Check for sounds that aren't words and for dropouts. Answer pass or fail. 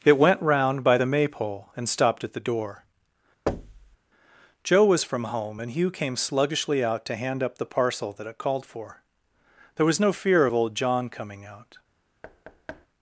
fail